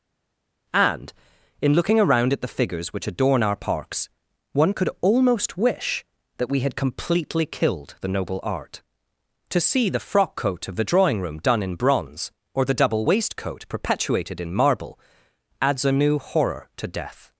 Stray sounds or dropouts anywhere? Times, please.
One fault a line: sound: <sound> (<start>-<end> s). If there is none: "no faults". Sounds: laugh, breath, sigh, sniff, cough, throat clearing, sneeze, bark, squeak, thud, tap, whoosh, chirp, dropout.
no faults